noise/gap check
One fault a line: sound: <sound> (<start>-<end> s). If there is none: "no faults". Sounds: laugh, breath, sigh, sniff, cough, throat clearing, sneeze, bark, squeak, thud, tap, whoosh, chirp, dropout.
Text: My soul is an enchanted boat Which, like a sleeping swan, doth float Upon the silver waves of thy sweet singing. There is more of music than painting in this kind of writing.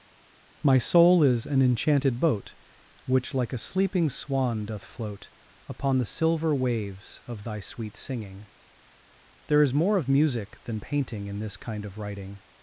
no faults